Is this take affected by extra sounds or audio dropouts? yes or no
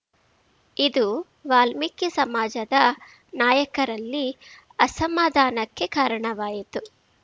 no